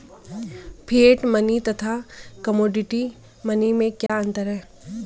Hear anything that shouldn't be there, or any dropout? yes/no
yes